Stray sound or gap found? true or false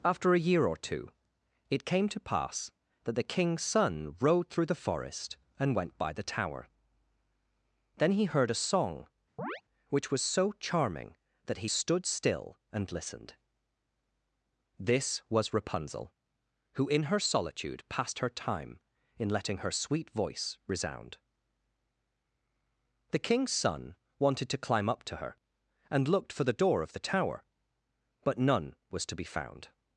true